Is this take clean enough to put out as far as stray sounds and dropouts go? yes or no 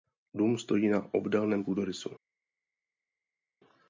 yes